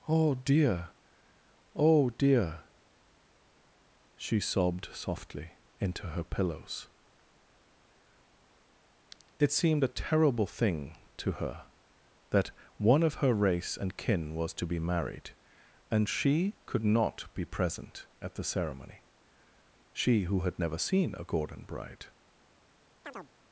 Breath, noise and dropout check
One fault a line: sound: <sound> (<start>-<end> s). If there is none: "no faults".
sound: chirp (23.0-23.3 s)